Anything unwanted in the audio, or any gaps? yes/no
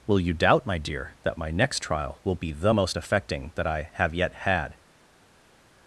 no